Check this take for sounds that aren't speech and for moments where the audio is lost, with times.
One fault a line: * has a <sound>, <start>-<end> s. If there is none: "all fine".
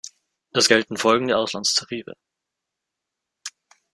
all fine